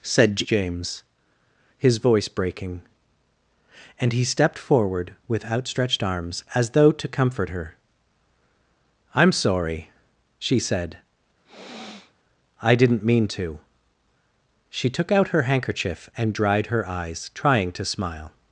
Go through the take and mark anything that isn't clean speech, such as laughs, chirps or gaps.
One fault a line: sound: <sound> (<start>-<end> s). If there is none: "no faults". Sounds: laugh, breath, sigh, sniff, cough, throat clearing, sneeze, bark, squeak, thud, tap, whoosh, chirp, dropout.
sound: sniff (11.4-12.1 s)